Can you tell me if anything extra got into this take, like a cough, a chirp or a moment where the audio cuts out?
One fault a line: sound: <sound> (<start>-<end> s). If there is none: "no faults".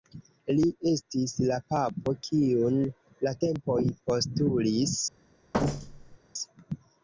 sound: thud (5.5-6.2 s)